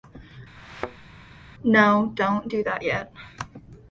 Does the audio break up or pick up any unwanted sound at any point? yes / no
yes